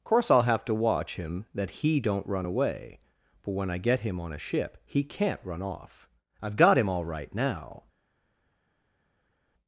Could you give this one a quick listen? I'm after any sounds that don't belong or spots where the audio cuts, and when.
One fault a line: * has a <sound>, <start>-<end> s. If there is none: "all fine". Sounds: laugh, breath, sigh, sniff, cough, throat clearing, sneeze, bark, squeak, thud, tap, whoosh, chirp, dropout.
all fine